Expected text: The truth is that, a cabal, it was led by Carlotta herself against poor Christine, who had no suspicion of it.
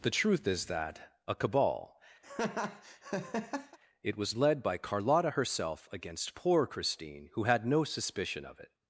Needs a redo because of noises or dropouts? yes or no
yes